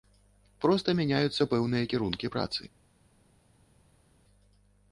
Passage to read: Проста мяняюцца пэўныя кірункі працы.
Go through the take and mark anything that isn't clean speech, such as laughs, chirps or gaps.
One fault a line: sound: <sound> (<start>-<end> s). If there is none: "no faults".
no faults